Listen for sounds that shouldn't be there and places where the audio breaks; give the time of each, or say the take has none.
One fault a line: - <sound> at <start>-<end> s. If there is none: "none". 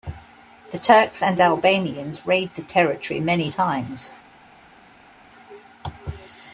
none